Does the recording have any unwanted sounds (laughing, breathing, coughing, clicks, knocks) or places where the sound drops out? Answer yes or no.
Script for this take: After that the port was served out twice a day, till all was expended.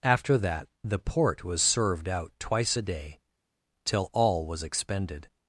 no